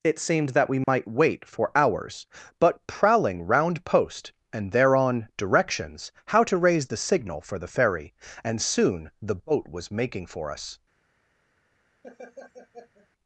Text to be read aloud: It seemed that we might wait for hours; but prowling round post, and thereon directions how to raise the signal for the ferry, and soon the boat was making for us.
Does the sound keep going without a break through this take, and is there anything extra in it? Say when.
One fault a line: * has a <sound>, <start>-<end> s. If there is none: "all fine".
* has a dropout, 0.8-0.9 s
* has a laugh, 12.0-13.1 s